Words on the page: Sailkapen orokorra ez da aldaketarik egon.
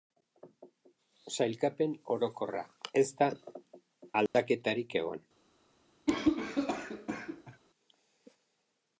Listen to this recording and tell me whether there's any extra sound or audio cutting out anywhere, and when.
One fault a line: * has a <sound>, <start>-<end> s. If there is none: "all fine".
* has a dropout, 4.3-4.3 s
* has a cough, 6.1-7.6 s